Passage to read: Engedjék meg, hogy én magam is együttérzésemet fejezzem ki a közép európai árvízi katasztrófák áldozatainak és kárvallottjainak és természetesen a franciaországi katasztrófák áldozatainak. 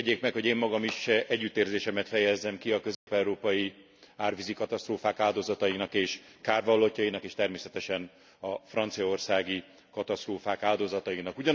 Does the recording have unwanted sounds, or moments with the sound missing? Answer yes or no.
yes